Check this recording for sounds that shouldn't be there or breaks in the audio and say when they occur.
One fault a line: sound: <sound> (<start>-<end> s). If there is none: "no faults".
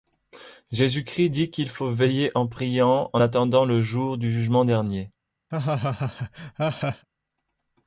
sound: laugh (5.5-7.1 s)